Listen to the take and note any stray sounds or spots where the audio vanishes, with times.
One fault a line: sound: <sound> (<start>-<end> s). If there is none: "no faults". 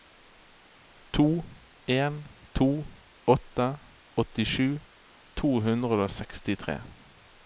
no faults